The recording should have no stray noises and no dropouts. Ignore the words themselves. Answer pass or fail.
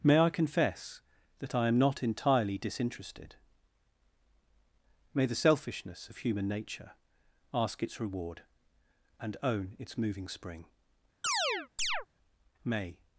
fail